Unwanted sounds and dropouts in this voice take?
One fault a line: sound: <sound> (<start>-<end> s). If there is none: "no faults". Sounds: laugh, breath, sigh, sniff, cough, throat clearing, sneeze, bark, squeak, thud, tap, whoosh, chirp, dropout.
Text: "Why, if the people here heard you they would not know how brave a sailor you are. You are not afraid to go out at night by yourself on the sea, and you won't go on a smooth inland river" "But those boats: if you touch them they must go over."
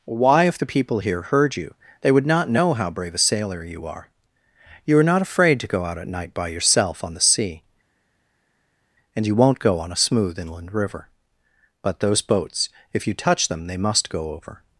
no faults